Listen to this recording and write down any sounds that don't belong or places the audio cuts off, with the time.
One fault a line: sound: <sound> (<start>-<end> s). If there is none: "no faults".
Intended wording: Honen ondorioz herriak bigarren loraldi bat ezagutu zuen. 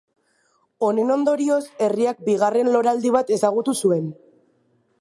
no faults